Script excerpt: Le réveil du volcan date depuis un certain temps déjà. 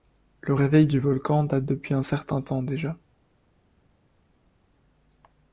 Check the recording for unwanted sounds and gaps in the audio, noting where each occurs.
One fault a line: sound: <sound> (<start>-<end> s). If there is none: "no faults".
no faults